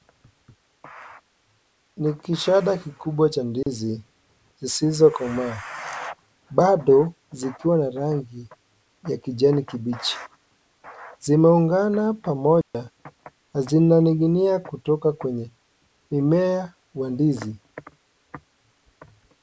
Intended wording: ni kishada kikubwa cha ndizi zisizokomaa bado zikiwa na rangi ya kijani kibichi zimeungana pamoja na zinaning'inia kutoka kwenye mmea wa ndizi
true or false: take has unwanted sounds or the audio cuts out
true